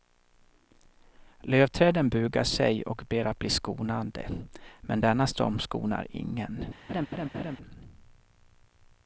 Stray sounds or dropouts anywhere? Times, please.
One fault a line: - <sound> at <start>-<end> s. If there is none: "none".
- laugh at 6.9-7.6 s